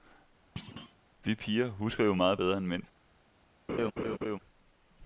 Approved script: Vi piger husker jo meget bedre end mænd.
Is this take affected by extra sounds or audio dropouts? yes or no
yes